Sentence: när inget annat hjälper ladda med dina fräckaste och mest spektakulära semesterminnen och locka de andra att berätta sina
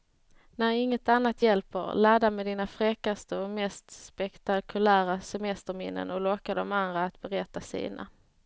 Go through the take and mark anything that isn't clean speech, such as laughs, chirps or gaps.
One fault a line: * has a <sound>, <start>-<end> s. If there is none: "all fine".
all fine